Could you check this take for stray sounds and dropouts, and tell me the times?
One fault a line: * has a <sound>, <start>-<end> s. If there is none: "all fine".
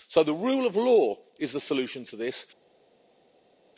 all fine